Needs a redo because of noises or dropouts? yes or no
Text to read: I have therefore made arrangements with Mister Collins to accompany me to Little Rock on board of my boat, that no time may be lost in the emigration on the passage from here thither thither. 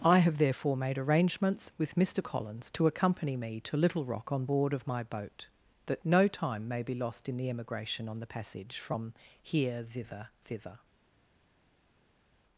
no